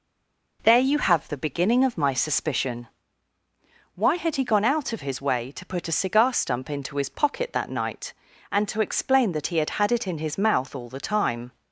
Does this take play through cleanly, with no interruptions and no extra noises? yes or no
yes